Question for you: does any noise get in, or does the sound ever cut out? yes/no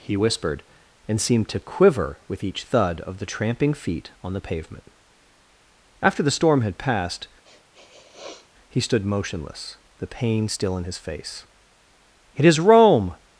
yes